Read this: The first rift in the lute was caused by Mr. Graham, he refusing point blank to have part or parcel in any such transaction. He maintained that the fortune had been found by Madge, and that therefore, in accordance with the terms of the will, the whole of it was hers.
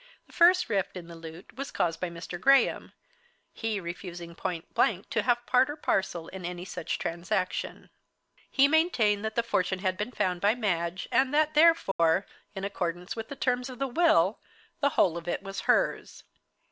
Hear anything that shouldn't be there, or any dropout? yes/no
yes